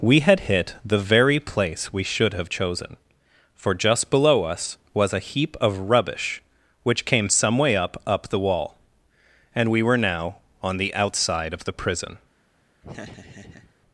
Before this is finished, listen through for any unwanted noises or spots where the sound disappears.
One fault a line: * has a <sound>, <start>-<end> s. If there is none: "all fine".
* has a laugh, 12.8-13.7 s